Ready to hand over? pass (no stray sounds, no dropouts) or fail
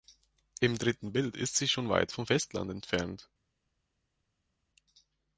pass